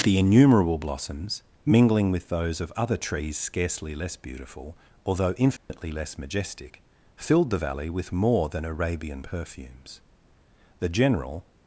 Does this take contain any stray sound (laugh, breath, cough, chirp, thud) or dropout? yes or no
yes